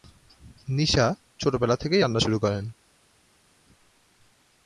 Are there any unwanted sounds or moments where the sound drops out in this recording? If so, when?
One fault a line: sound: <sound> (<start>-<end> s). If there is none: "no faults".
no faults